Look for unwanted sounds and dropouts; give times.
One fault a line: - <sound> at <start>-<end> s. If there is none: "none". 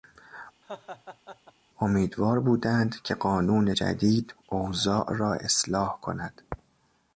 - laugh at 0.6-1.5 s